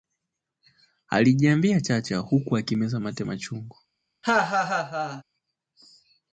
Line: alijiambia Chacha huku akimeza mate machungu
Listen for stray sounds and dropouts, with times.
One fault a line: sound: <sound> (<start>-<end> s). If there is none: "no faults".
sound: laugh (4.2-5.2 s)